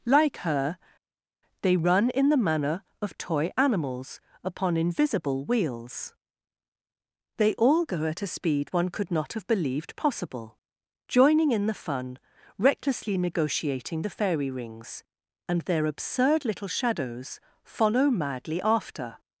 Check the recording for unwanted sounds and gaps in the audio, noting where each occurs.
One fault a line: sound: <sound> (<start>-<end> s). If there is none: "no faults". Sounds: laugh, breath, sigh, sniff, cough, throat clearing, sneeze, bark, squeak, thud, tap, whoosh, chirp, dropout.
no faults